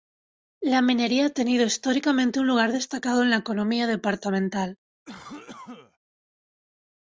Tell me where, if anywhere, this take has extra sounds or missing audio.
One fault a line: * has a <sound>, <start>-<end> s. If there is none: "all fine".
* has a cough, 5.0-6.0 s